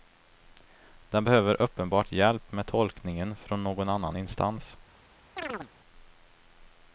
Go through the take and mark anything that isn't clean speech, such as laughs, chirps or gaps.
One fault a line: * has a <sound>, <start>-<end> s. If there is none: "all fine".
* has a chirp, 5.4-5.7 s